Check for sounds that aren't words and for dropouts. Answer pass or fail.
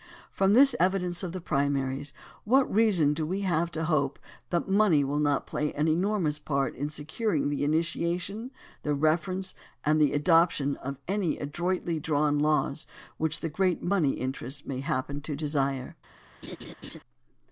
fail